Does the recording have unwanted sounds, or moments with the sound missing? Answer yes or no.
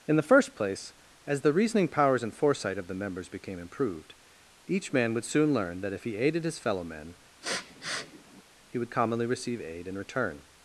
yes